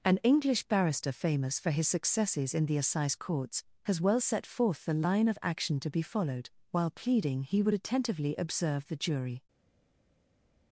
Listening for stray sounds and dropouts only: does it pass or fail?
pass